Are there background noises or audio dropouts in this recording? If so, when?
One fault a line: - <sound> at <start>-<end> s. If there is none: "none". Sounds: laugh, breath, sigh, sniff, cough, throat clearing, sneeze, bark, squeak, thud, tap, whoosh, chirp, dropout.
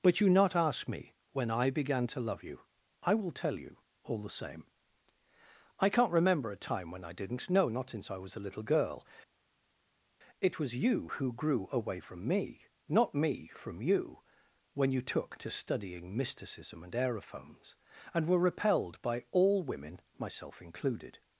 none